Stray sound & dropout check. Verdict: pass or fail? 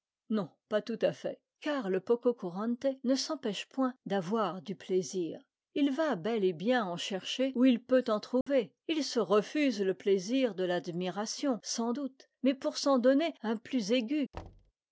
fail